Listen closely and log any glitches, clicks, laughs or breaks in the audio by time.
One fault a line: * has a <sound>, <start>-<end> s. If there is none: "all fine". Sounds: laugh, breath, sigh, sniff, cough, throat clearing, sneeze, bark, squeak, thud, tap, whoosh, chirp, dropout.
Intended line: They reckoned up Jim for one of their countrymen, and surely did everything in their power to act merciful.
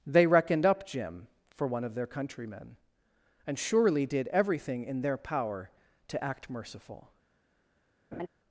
* has a laugh, 8.1-8.3 s